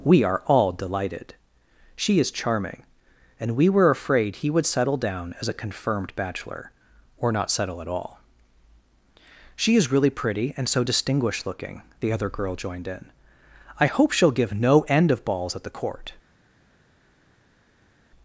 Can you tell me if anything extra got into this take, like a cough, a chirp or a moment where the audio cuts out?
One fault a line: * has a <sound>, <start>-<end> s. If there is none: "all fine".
all fine